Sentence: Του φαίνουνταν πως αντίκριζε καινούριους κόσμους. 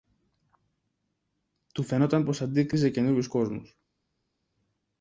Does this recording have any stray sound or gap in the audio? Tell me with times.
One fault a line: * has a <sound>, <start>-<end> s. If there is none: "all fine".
all fine